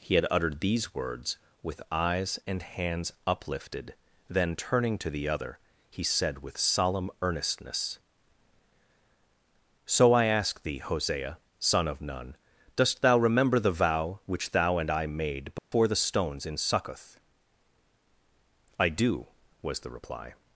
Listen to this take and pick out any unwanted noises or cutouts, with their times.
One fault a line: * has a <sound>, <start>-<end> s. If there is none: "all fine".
* has a dropout, 15.6-15.7 s